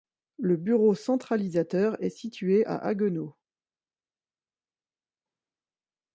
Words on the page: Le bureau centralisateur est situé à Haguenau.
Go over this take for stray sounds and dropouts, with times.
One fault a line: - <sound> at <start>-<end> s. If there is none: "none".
none